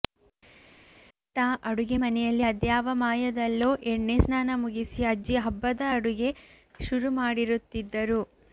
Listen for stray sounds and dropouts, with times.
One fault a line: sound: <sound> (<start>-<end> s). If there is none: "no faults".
no faults